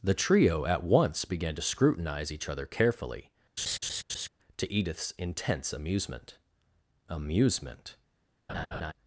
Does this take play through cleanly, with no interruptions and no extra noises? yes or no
no